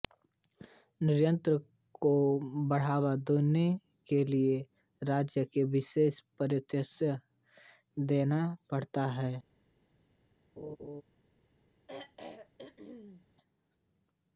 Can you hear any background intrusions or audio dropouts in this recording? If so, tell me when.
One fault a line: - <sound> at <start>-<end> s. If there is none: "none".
- laugh at 10.6-11.0 s
- throat clearing at 11.9-13.3 s